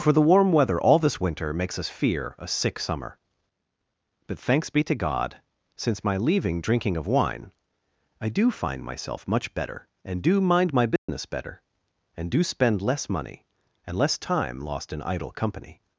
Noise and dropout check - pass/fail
fail